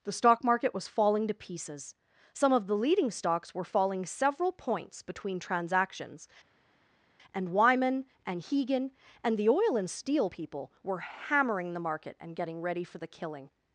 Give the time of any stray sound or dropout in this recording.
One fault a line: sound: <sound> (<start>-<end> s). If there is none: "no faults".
no faults